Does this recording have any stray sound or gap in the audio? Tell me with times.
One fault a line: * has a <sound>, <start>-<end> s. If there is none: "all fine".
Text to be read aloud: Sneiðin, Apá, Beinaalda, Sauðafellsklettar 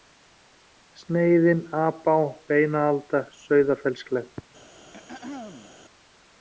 * has a throat clearing, 4.9-5.7 s